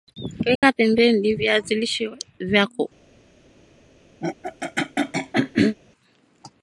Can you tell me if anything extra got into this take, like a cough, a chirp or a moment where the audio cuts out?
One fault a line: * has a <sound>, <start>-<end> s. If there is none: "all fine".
* has a dropout, 0.6-0.6 s
* has a throat clearing, 4.2-5.8 s